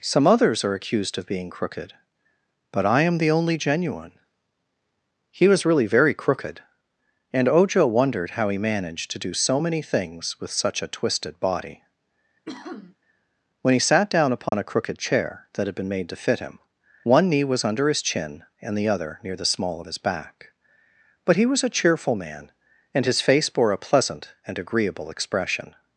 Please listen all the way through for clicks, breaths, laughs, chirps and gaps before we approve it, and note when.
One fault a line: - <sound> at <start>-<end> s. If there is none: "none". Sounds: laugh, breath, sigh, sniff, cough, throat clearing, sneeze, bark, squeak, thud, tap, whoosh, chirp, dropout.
- sniff at 12.4-13.0 s
- dropout at 14.5-14.5 s